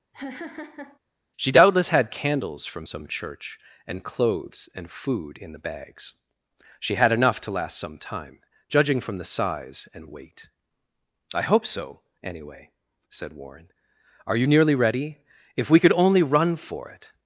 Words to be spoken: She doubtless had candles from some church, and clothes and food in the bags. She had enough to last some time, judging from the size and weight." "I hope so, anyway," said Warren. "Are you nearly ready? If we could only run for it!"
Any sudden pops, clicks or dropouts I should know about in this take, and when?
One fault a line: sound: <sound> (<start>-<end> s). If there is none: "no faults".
sound: laugh (0.1-1.0 s)